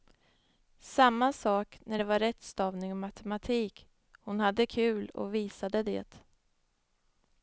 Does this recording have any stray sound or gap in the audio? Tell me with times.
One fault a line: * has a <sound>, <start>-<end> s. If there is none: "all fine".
all fine